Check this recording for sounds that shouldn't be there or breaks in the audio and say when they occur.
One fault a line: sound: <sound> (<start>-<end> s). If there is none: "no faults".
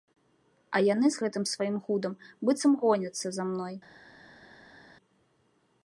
no faults